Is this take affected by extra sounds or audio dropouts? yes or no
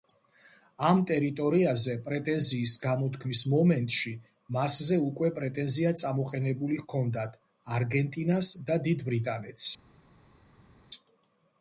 no